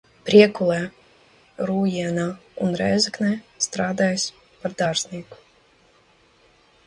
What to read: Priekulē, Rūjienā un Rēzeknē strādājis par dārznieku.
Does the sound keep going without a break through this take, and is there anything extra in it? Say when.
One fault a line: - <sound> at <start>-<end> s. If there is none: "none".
none